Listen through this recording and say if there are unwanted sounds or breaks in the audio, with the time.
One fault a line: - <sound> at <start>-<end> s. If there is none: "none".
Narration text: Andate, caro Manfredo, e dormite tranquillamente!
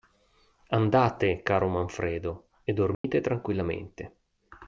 - dropout at 2.9-3.0 s